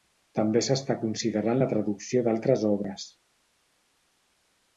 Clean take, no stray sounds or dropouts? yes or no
yes